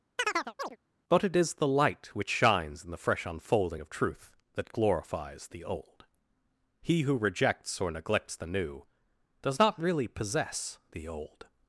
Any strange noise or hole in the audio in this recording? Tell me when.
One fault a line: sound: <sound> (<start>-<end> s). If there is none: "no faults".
sound: chirp (0.2-0.8 s)